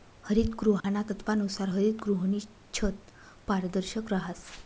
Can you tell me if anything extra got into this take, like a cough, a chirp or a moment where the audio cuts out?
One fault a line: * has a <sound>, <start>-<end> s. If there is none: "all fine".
* has a dropout, 0.8-0.8 s